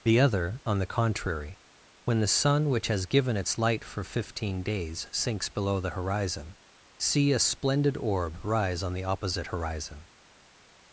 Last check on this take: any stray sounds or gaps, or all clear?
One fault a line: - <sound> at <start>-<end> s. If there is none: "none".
none